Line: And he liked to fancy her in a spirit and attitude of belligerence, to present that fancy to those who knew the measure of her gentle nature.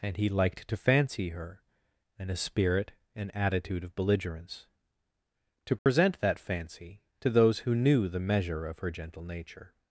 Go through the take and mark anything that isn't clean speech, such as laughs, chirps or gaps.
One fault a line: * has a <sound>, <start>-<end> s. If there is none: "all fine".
* has a dropout, 5.8-5.9 s